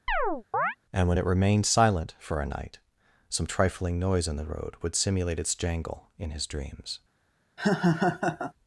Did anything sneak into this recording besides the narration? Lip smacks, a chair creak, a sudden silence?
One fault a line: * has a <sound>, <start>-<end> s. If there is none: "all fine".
* has a chirp, 0.1-0.8 s
* has a laugh, 7.6-8.5 s